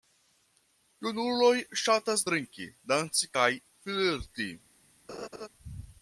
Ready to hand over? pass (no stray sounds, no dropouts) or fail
fail